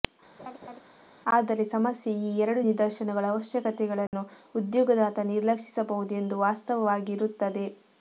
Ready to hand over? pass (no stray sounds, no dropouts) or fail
fail